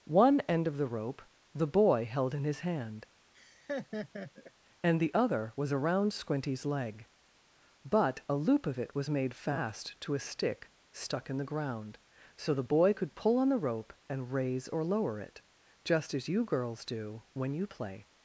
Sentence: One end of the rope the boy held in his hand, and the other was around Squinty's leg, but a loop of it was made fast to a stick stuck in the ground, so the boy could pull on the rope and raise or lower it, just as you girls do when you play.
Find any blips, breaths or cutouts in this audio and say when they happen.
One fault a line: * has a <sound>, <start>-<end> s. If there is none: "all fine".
* has a laugh, 3.3-4.5 s